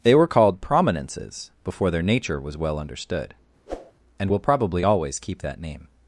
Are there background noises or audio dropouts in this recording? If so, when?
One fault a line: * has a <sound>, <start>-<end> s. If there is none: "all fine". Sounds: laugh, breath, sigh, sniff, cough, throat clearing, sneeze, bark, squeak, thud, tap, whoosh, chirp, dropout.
* has a whoosh, 3.7-3.9 s